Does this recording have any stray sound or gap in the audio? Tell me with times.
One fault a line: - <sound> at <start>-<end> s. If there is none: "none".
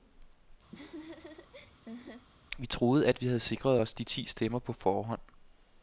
- laugh at 0.7-2.3 s